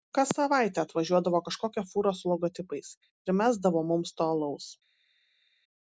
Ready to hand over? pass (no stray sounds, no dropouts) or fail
pass